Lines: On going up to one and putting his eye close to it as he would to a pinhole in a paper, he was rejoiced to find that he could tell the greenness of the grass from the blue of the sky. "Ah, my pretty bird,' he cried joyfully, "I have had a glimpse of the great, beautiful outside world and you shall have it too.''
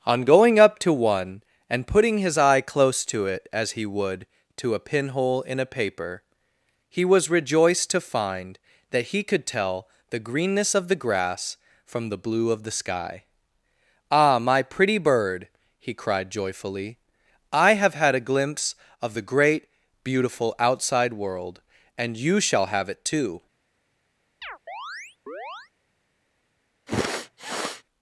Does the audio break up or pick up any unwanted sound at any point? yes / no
yes